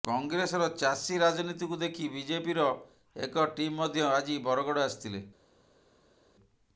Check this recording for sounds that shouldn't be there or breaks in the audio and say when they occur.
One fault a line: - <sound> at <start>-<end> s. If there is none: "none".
none